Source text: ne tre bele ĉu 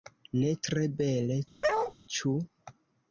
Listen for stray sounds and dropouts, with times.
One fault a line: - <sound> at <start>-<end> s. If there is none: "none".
- bark at 1.6-1.9 s